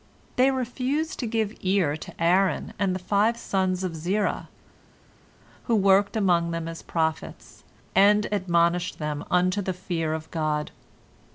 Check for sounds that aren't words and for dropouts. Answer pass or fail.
pass